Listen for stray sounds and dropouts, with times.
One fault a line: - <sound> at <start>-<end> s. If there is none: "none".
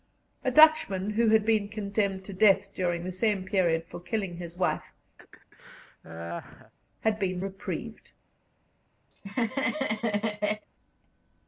- laugh at 5.2-6.7 s
- laugh at 9.1-10.7 s